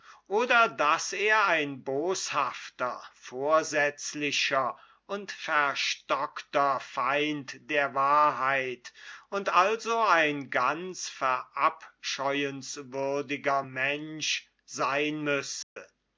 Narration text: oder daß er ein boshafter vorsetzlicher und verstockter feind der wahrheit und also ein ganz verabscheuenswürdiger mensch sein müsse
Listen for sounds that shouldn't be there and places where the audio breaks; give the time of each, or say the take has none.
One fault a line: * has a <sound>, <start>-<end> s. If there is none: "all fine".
* has a dropout, 15.6-15.8 s